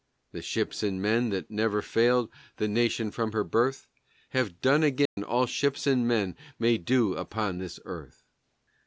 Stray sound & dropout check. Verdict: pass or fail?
fail